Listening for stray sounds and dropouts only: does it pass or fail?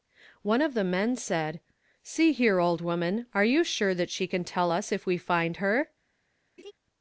fail